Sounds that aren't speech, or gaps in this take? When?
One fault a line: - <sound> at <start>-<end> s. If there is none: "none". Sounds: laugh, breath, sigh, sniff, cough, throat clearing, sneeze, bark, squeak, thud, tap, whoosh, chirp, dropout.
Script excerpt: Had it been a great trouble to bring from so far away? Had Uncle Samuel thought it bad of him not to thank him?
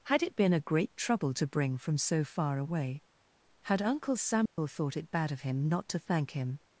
- dropout at 4.5-4.6 s